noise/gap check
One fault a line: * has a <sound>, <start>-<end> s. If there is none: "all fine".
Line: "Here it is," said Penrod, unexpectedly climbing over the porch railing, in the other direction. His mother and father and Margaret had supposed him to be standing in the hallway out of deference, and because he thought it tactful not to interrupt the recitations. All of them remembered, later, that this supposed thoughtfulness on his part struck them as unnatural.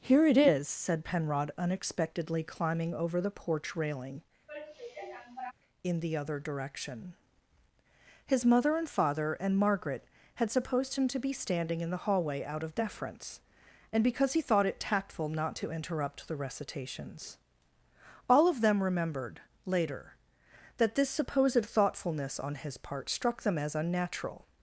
* has a sigh, 4.5-5.5 s